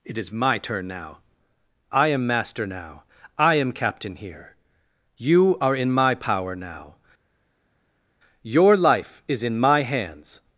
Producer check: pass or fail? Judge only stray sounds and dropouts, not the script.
pass